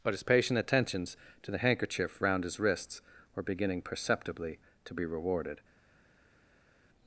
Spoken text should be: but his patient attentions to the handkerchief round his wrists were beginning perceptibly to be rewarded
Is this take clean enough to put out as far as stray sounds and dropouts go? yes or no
yes